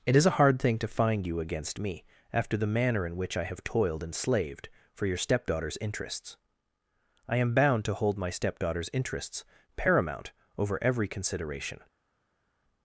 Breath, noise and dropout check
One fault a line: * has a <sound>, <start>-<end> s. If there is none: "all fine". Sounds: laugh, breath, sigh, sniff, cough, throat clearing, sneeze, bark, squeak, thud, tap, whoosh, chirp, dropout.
all fine